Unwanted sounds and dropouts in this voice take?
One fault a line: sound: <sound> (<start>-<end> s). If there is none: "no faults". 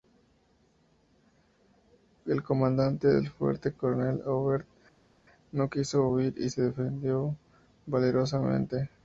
no faults